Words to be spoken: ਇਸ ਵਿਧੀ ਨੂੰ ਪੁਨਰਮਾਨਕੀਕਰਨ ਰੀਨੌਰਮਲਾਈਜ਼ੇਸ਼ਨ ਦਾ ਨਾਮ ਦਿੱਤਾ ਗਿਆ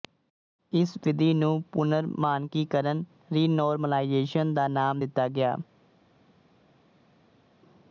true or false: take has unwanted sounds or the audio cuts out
false